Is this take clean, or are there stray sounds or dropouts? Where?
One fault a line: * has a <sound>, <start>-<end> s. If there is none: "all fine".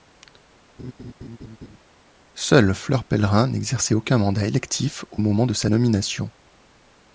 * has a laugh, 0.8-1.8 s